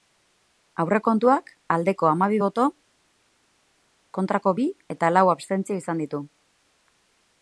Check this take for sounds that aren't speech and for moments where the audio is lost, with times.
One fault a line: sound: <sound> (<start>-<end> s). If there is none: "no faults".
no faults